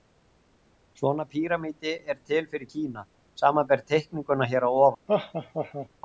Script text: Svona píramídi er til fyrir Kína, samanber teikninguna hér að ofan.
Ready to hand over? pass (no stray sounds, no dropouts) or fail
fail